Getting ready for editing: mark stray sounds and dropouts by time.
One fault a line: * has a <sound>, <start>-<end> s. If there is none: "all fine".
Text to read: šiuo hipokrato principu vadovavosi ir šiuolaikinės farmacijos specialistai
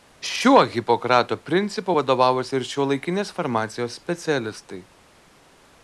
all fine